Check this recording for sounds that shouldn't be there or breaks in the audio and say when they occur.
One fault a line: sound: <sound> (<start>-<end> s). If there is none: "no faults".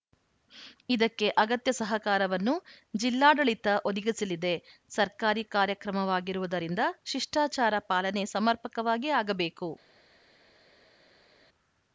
no faults